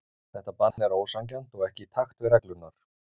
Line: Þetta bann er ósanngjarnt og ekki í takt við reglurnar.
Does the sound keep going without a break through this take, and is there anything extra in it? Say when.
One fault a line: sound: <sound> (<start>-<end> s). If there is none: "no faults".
sound: dropout (0.7-0.8 s)